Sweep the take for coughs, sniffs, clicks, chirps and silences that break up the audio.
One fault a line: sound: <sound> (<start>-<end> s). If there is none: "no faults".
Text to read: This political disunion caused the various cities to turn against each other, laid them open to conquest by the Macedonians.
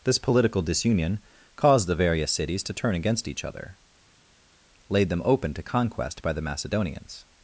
no faults